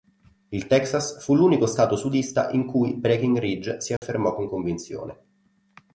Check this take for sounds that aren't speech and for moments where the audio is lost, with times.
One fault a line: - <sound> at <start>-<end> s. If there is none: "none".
- dropout at 4.0-4.0 s